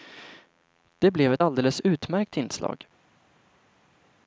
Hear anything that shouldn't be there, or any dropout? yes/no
no